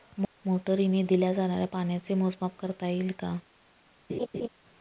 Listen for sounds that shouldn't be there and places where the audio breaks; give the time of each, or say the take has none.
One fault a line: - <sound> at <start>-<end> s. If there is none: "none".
- laugh at 4.1-4.5 s